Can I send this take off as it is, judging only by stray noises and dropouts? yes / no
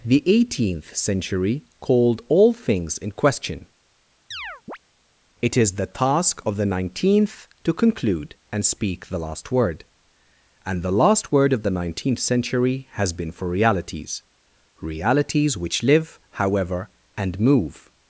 no